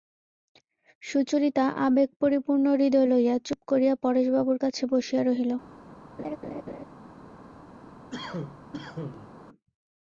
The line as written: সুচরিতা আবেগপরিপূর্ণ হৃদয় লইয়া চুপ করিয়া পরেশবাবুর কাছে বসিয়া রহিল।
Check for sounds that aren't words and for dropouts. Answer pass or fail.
fail